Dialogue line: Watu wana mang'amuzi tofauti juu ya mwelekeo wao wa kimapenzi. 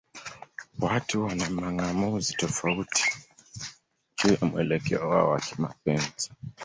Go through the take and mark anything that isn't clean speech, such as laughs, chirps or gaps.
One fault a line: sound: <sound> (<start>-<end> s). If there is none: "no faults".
no faults